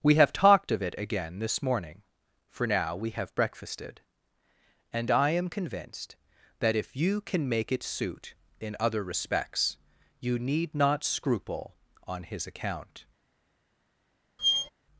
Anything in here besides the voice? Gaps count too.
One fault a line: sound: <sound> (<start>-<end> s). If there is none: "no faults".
sound: squeak (14.4-14.7 s)